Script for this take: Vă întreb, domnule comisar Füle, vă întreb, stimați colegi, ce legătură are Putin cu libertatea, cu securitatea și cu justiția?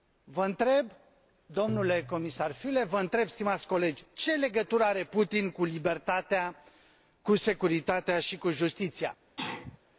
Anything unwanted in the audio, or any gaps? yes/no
yes